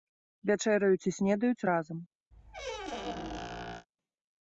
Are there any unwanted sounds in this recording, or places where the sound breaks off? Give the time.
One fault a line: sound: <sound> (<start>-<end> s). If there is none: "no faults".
sound: squeak (2.3-3.9 s)